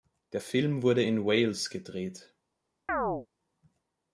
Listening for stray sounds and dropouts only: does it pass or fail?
fail